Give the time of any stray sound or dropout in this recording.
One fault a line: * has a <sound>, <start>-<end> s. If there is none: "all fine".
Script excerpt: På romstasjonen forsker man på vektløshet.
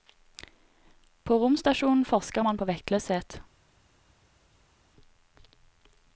all fine